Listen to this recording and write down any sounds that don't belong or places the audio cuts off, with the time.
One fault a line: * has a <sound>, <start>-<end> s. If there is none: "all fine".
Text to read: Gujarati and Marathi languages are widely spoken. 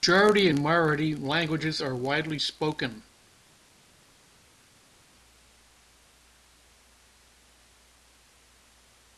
all fine